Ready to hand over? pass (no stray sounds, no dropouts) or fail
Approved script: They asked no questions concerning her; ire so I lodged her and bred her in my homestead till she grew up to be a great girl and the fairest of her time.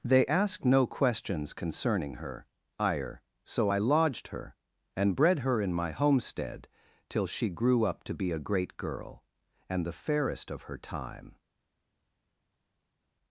pass